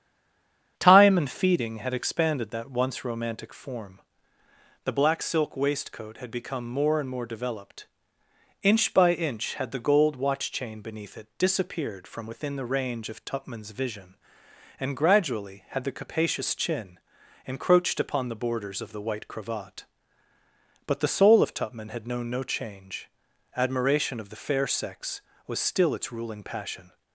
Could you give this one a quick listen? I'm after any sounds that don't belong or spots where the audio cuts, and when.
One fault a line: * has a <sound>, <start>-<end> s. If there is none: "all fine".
all fine